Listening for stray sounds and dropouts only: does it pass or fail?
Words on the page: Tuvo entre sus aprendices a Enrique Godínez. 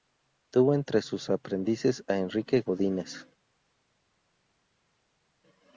pass